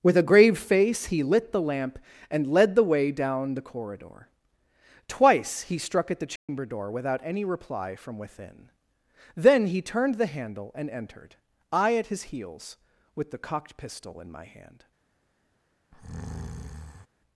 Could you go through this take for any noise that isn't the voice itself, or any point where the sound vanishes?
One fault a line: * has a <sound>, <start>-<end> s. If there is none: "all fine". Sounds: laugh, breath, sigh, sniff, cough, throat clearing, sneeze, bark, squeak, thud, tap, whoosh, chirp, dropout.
* has a dropout, 6.4-6.5 s
* has a breath, 15.9-17.1 s